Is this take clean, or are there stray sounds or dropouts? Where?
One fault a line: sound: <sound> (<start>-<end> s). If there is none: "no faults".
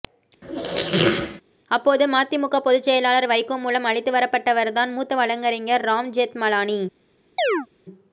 sound: squeak (0.4-1.4 s)
sound: chirp (7.4-7.7 s)